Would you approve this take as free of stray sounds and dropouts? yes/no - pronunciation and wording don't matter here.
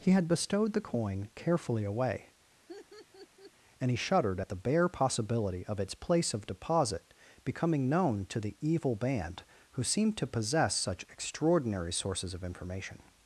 no